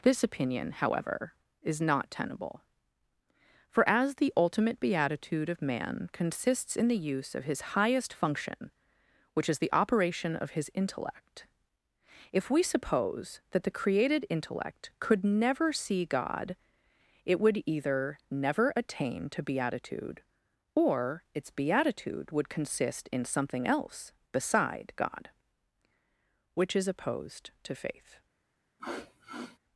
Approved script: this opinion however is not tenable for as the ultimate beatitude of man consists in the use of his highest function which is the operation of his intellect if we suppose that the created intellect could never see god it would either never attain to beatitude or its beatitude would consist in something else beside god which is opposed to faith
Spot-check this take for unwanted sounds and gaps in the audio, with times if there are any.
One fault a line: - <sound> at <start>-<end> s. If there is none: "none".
- sniff at 28.8-29.6 s